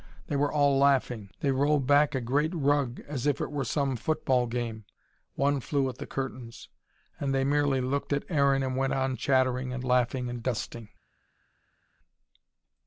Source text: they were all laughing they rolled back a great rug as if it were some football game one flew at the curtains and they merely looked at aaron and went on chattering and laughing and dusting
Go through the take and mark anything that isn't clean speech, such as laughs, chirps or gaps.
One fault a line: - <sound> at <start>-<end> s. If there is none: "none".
none